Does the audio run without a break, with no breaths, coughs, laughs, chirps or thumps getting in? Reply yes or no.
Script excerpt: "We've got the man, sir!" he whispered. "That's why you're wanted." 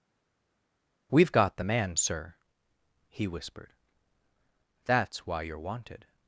yes